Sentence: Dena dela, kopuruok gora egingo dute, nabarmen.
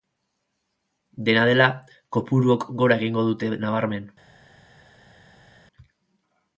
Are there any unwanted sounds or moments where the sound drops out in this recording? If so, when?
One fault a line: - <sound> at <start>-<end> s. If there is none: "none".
none